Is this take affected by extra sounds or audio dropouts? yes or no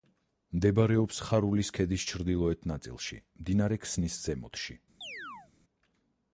yes